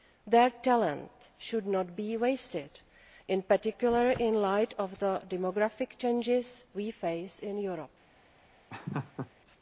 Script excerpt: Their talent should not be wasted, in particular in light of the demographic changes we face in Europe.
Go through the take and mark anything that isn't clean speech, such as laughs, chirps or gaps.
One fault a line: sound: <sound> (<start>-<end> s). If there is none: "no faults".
sound: laugh (8.7-9.3 s)